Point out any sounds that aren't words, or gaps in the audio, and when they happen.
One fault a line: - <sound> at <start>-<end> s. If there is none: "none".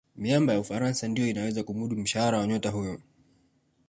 none